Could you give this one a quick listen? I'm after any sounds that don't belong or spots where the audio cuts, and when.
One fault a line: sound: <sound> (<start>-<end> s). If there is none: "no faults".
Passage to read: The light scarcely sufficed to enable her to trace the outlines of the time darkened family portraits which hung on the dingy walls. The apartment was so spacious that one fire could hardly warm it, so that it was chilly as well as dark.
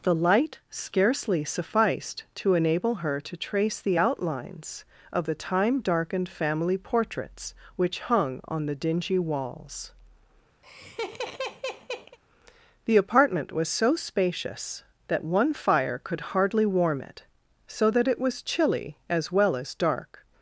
sound: laugh (10.6-12.2 s)